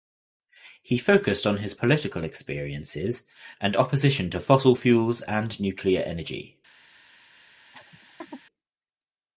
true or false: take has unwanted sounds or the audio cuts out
true